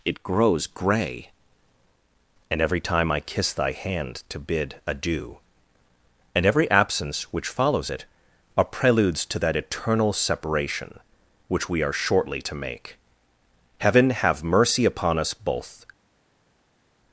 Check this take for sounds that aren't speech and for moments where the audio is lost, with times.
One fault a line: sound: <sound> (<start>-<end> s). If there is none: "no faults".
no faults